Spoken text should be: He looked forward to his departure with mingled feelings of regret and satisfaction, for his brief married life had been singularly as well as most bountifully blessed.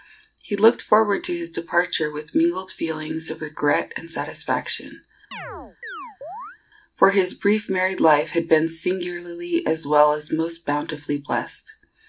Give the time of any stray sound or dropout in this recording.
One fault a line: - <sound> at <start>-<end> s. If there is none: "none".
- chirp at 5.3-6.6 s